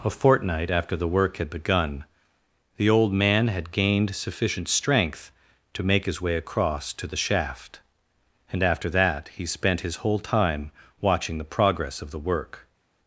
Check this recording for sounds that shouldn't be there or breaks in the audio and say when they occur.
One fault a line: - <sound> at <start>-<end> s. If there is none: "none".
none